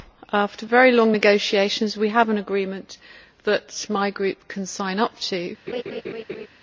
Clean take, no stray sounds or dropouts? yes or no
no